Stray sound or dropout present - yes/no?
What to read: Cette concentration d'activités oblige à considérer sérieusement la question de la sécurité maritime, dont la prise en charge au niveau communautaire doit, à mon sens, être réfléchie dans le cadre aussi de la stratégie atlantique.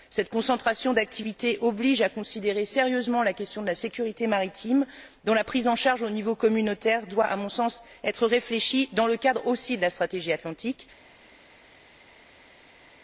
no